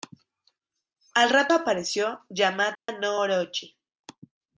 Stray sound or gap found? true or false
true